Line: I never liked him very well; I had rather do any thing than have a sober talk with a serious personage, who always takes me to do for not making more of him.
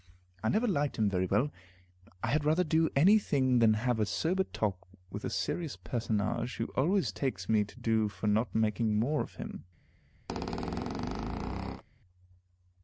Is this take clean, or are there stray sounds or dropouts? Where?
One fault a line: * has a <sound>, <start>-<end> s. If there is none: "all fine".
* has a squeak, 10.3-11.8 s